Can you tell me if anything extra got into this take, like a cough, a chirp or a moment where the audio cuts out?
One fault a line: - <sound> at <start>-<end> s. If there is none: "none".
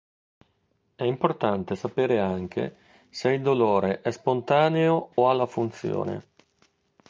- dropout at 5.1-5.2 s